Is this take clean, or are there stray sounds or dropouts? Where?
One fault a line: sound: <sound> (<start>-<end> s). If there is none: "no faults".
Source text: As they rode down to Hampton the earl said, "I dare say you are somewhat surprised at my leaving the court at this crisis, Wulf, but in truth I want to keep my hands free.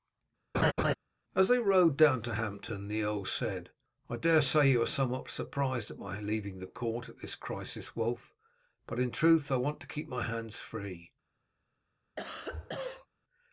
sound: laugh (0.5-0.9 s)
sound: cough (12.2-13.1 s)